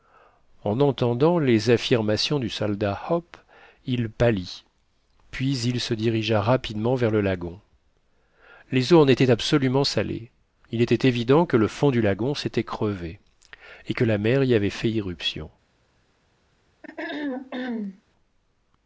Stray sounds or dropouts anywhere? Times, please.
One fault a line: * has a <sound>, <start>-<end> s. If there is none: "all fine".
* has a throat clearing, 16.8-18.0 s